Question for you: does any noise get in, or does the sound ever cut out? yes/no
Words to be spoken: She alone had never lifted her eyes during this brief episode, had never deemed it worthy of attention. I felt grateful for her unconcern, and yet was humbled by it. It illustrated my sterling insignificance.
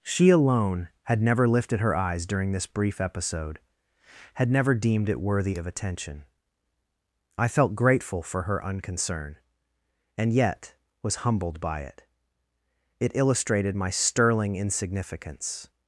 no